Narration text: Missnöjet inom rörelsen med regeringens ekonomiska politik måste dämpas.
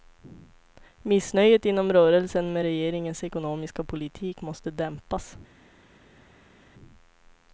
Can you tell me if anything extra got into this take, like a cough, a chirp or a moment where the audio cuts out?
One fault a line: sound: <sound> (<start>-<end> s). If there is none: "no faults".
no faults